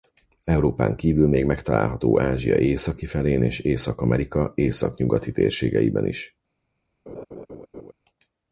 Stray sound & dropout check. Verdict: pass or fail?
fail